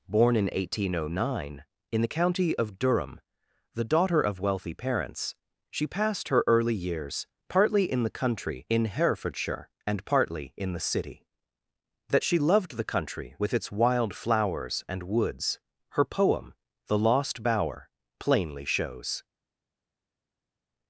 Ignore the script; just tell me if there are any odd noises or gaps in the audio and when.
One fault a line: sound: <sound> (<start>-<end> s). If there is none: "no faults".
no faults